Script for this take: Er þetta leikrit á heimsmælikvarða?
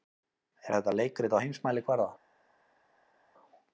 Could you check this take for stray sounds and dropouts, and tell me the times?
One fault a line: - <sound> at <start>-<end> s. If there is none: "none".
none